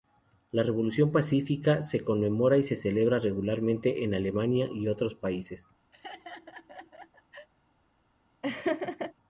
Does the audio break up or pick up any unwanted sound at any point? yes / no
yes